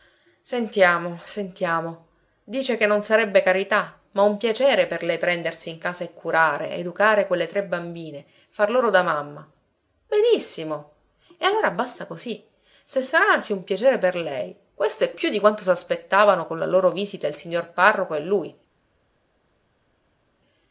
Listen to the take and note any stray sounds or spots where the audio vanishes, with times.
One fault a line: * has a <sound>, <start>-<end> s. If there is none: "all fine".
all fine